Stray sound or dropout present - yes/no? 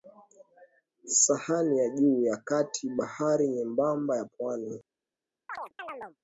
yes